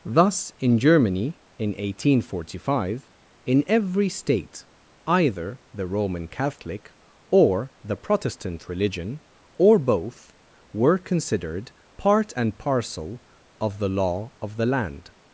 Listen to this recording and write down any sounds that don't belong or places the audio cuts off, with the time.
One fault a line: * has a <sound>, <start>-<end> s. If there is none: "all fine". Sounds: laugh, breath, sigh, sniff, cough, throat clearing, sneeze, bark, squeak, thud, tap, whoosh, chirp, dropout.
all fine